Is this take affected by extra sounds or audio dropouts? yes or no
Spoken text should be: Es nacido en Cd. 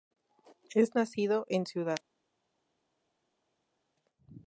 no